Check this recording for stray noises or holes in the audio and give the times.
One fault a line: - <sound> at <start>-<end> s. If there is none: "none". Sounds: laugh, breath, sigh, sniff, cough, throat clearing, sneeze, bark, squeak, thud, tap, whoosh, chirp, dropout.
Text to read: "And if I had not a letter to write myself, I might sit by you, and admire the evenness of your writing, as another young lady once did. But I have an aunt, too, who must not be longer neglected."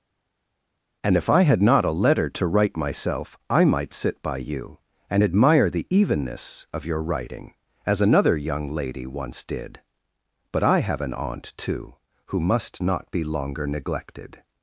none